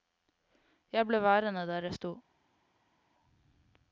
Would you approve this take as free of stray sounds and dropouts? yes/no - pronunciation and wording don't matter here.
yes